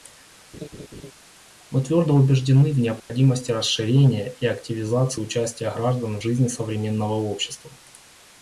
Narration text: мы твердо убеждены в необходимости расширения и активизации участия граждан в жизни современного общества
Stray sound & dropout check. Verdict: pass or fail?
fail